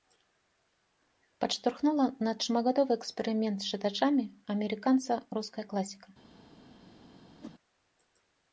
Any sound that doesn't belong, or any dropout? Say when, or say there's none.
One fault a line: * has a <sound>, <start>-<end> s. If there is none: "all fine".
* has a whoosh, 7.4-7.6 s